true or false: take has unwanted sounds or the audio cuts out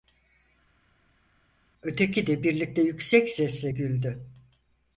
false